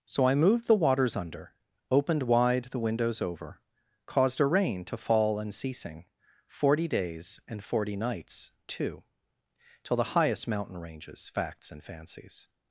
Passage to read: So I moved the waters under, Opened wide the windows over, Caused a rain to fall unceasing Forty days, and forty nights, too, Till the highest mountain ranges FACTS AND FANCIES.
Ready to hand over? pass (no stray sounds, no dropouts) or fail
pass